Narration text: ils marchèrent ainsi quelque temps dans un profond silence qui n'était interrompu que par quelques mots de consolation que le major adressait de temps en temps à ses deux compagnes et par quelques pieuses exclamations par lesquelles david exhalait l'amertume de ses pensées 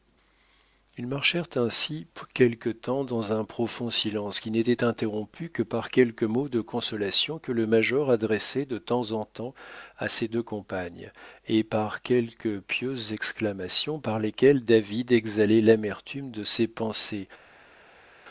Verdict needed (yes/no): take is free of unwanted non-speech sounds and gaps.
yes